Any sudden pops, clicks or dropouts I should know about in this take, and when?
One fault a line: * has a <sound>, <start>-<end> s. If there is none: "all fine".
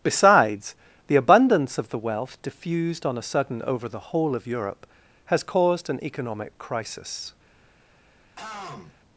* has a throat clearing, 8.4-9.0 s